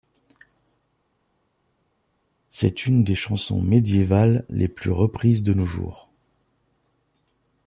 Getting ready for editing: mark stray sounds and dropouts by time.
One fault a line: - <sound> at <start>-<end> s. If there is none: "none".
none